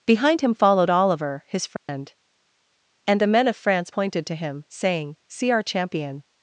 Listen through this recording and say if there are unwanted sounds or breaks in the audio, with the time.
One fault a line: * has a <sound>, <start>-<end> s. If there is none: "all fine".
* has a dropout, 1.8-1.9 s